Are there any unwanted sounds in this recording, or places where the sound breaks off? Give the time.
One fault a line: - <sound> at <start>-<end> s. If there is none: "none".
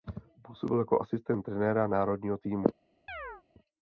- chirp at 3.1-3.4 s